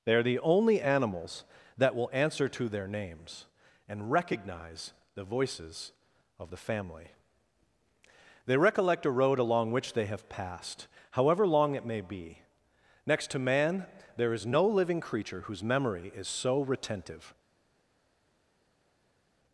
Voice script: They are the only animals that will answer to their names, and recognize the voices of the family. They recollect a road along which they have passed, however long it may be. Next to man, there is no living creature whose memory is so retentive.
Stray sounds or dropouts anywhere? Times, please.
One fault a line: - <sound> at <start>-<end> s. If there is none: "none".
none